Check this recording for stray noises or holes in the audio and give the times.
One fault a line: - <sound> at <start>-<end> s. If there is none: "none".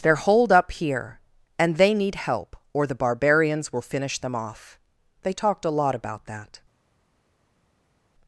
none